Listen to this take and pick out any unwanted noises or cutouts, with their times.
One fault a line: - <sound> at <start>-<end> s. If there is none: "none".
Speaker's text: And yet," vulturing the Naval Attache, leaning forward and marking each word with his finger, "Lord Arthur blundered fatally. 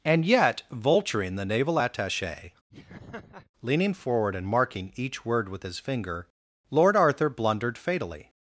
- laugh at 2.7-3.5 s